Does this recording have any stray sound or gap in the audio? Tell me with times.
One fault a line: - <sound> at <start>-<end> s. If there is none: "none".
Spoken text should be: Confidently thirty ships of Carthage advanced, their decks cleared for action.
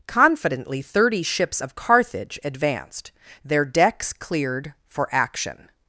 none